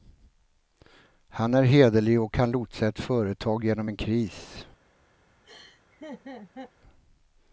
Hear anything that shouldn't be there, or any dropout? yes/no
yes